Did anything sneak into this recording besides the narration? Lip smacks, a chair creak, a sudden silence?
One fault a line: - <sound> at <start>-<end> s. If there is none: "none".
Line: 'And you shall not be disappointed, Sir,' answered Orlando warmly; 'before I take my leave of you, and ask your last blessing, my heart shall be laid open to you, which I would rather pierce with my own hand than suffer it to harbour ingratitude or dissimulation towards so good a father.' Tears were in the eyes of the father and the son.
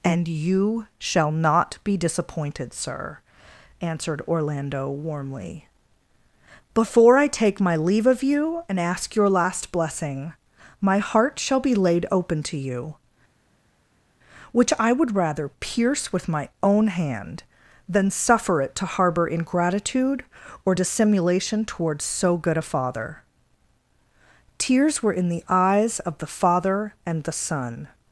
none